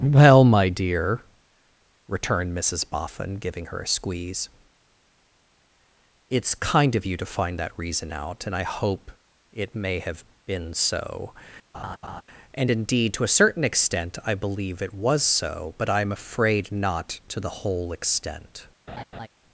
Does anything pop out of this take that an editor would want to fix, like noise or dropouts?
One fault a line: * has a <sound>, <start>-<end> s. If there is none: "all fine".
* has a laugh, 11.7-12.2 s
* has a laugh, 18.9-19.3 s